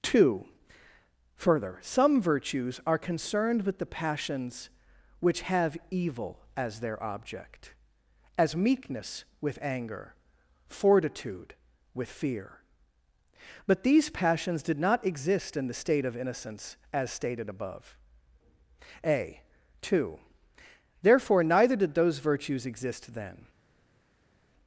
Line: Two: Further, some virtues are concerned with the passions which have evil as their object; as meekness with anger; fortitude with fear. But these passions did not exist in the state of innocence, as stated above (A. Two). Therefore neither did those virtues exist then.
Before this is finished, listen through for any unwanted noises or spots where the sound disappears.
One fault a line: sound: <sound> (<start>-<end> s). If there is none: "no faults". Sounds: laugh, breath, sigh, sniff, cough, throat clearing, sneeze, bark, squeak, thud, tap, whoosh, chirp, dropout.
no faults